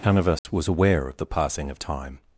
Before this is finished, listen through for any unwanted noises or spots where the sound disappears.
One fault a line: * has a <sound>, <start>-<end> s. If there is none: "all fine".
* has a dropout, 0.4-0.4 s